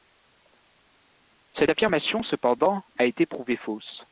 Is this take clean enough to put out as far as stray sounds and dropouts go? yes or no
yes